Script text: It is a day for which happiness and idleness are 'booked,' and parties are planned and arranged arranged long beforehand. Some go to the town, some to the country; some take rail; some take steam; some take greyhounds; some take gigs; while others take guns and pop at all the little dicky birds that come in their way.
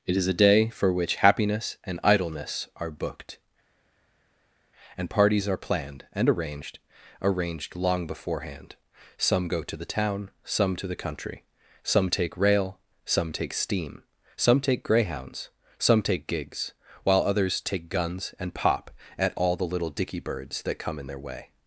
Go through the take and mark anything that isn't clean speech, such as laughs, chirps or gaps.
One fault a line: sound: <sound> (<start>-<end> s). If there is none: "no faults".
no faults